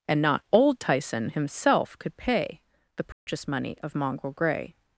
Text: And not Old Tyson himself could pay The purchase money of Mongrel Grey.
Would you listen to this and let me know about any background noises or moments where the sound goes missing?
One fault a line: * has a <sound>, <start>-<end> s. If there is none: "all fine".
* has a dropout, 3.1-3.3 s